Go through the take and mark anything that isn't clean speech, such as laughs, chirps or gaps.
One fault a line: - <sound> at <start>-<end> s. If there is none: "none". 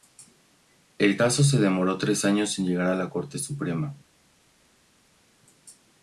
none